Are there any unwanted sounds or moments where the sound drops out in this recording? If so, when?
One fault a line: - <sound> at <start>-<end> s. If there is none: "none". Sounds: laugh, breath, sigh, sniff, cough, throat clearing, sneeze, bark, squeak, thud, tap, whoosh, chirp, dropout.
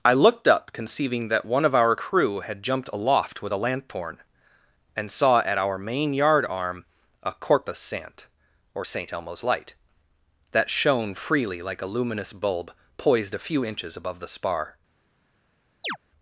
- chirp at 15.8-16.0 s